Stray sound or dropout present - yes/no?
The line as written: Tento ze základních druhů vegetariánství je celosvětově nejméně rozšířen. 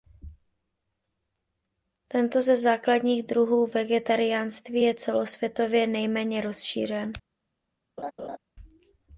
yes